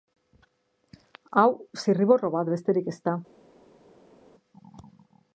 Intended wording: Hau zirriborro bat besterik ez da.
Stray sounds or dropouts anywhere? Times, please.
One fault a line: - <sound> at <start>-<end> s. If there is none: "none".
none